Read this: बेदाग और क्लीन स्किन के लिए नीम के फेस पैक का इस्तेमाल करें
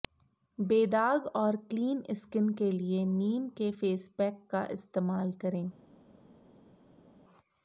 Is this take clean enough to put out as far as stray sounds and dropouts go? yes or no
yes